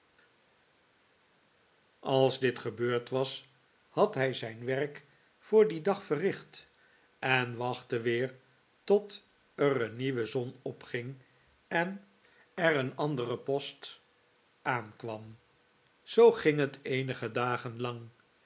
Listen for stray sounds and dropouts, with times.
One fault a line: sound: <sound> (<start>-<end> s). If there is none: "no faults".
no faults